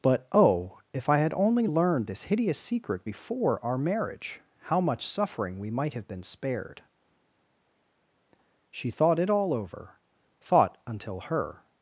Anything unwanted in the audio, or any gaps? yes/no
no